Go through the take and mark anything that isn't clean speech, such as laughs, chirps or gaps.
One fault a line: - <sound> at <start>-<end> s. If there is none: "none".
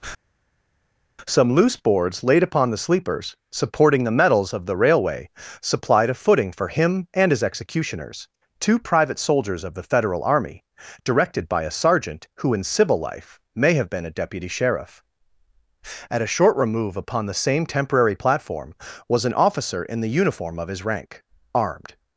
none